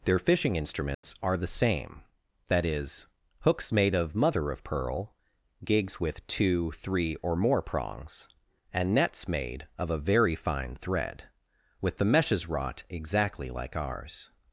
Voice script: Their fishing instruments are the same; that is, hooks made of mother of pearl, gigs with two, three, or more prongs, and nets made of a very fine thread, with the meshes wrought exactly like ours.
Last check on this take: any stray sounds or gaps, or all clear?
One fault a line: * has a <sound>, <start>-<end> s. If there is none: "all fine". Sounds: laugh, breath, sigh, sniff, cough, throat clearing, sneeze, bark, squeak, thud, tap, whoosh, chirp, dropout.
* has a dropout, 0.9-1.0 s